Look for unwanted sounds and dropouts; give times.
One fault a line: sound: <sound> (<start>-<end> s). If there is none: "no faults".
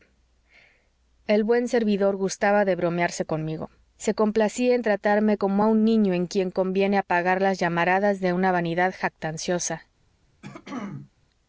sound: throat clearing (10.4-11.1 s)